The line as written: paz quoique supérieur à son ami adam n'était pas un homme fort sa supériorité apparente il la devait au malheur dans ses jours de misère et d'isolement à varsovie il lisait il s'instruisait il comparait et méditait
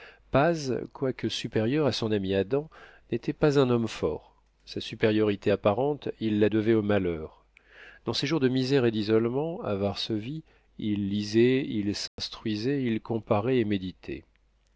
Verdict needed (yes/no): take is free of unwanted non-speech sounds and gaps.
no